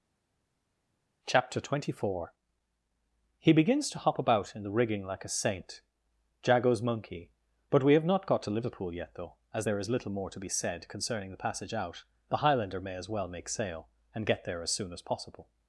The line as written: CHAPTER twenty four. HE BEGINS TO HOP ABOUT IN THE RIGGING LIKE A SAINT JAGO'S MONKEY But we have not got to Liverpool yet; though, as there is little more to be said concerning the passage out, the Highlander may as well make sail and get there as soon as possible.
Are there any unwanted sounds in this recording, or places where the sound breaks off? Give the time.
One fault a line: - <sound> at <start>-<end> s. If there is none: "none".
none